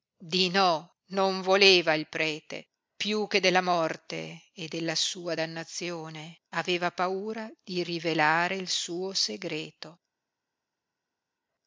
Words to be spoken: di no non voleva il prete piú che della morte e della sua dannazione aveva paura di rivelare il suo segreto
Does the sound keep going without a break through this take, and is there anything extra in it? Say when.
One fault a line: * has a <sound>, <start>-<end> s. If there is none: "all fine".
all fine